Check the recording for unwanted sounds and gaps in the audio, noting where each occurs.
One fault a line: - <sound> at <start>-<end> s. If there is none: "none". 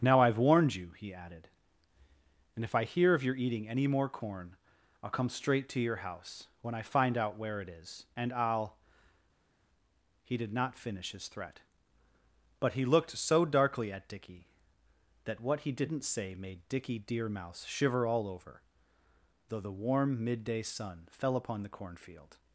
none